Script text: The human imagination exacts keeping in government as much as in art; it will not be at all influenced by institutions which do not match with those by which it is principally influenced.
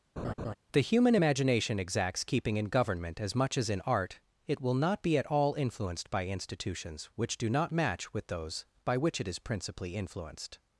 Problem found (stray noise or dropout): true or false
true